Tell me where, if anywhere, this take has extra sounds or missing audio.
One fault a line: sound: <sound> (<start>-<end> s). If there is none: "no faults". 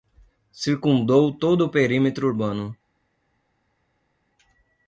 no faults